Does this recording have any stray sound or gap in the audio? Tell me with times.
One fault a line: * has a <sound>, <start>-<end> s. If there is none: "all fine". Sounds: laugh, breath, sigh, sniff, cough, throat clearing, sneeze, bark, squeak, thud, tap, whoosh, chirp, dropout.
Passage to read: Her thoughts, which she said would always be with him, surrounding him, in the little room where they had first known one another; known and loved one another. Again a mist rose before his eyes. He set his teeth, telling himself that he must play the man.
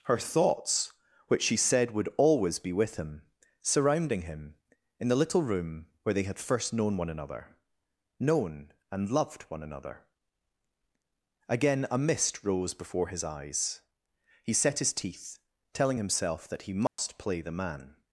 * has a dropout, 16.9-17.0 s